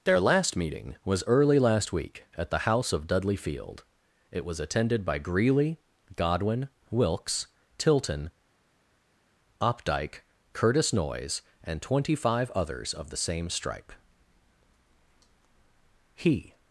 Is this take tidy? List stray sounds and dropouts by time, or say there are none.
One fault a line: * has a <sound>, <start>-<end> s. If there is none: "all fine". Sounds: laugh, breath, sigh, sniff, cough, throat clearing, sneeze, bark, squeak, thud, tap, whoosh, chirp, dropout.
all fine